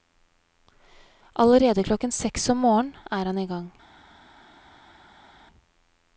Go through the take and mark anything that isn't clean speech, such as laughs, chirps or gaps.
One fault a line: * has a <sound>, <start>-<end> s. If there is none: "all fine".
all fine